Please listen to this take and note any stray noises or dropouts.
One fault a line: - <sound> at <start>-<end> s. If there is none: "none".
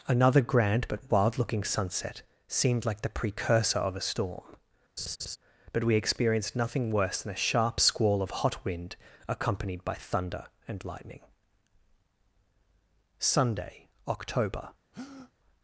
- laugh at 5.0-5.4 s
- breath at 14.9-15.3 s